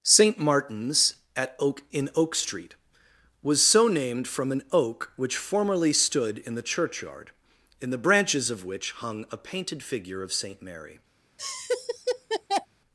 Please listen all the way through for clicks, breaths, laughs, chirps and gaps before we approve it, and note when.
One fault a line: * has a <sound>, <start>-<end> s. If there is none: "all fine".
* has a laugh, 11.4-12.7 s